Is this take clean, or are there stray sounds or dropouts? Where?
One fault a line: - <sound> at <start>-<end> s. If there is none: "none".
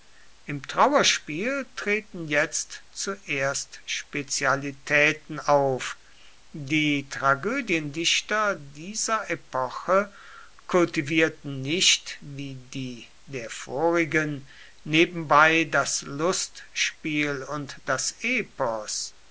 none